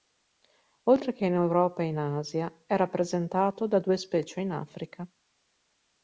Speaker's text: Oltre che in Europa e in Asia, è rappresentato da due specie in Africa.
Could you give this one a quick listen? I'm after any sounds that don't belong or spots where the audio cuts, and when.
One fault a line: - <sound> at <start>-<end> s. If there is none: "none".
none